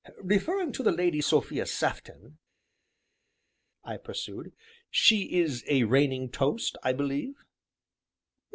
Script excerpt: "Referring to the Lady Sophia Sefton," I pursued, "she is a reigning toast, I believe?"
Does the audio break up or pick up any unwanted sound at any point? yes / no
no